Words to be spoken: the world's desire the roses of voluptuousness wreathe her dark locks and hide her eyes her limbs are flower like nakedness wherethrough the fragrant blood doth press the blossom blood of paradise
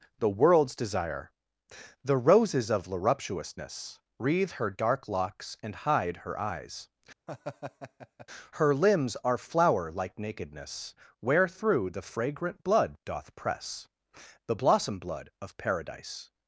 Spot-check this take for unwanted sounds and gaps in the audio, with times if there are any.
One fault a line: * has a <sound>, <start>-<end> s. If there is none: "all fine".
* has a laugh, 7.3-8.3 s